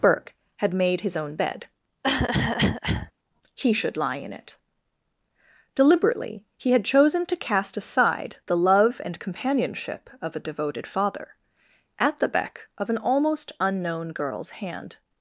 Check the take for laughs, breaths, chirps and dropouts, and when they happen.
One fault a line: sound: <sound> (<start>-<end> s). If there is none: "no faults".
sound: cough (2.0-3.1 s)